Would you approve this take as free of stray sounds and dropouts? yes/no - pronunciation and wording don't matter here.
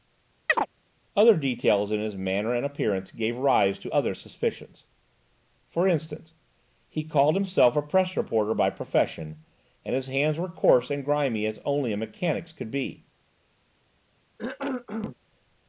no